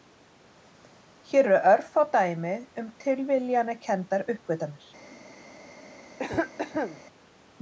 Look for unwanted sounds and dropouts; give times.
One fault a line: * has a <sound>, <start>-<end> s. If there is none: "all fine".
* has a cough, 6.2-7.0 s